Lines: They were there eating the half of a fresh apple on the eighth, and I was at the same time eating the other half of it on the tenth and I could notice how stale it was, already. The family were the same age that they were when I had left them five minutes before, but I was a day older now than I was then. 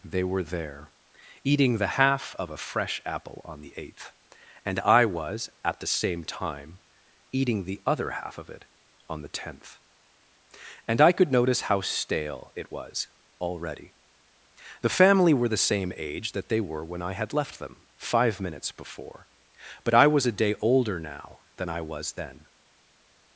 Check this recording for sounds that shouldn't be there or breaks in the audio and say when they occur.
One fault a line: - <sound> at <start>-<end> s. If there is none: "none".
none